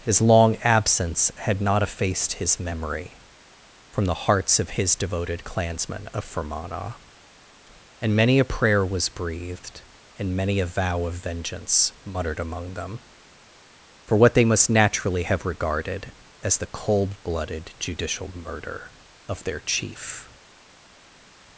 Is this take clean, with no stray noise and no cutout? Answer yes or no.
yes